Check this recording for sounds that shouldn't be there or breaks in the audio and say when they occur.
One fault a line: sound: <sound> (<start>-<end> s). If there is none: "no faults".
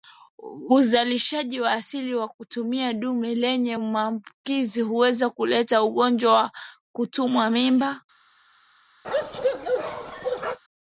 sound: bark (9.0-10.6 s)